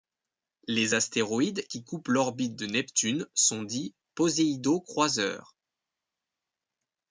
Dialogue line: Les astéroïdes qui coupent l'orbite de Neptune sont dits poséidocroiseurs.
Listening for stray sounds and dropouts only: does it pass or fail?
pass